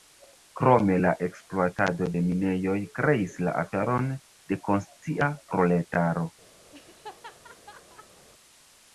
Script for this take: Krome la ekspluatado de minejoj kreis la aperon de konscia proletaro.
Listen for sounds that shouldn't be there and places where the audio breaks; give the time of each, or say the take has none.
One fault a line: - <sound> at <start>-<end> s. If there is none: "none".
- laugh at 6.7-8.3 s